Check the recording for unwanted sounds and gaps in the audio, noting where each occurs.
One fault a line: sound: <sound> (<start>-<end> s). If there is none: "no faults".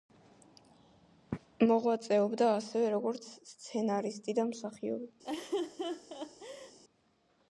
sound: laugh (5.2-6.8 s)